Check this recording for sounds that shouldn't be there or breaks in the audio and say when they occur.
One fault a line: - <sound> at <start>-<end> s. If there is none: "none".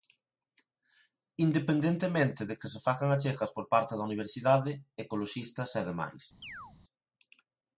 - chirp at 6.4-6.7 s